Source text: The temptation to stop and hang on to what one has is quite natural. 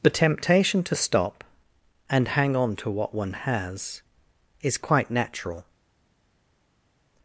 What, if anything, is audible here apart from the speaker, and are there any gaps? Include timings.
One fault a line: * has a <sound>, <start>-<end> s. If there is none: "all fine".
all fine